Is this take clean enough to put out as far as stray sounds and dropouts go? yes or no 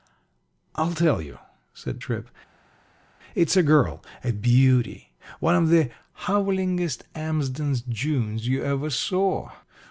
yes